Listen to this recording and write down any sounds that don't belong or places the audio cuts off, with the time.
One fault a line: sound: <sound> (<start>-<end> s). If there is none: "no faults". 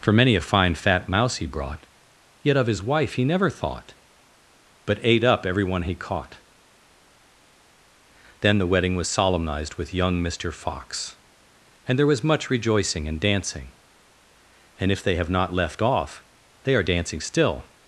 no faults